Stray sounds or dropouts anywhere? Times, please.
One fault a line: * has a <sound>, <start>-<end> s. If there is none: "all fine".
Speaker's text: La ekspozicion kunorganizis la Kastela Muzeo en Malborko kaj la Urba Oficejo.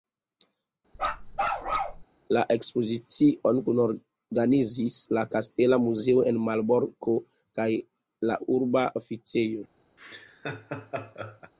* has a bark, 0.9-2.0 s
* has a laugh, 10.0-11.5 s